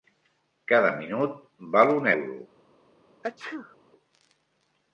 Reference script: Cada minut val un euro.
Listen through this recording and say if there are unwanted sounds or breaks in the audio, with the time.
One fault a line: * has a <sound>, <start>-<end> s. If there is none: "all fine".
* has a sneeze, 3.2-3.8 s